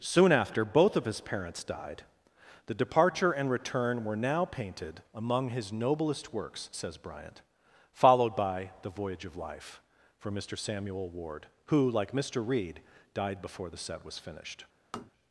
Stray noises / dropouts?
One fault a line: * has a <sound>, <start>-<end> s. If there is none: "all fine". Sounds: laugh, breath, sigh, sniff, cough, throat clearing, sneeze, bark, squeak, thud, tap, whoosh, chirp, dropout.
* has a tap, 14.9-15.1 s